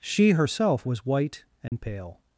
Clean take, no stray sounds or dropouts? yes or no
no